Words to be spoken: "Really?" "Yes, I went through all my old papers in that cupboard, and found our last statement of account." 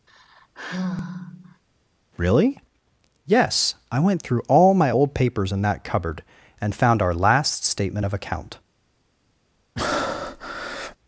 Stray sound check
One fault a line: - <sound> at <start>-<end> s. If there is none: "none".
- sigh at 0.1-1.6 s
- breath at 9.8-11.0 s